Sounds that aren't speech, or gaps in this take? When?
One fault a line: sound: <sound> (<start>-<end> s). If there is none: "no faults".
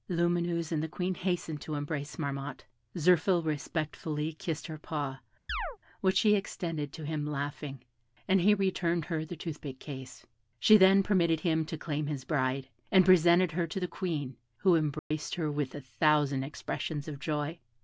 sound: chirp (5.5-5.8 s)
sound: dropout (15.0-15.1 s)